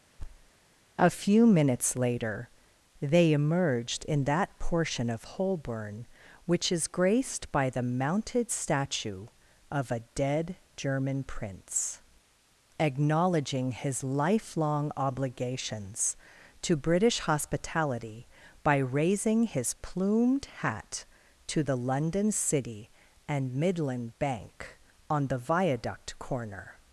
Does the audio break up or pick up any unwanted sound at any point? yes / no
yes